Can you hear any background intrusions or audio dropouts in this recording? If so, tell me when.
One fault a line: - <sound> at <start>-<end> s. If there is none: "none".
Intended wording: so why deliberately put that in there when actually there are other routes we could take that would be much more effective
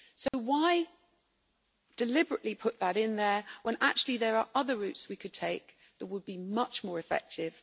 - dropout at 0.3-0.3 s